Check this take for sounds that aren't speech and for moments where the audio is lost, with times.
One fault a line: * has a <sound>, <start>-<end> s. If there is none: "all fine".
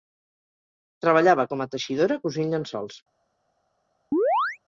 * has a chirp, 4.1-4.6 s